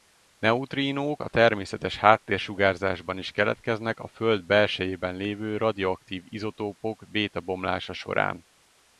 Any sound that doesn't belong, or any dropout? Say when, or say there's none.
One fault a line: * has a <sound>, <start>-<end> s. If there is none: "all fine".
all fine